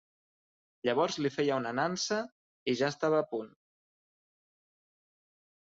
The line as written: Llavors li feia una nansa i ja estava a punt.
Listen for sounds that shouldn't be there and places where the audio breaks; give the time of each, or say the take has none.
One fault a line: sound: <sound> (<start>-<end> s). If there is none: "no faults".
no faults